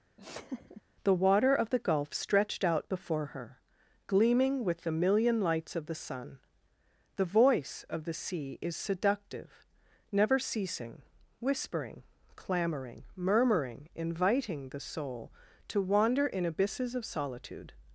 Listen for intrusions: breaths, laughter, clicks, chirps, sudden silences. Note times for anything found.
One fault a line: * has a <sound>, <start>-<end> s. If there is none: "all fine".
* has a laugh, 0.2-0.8 s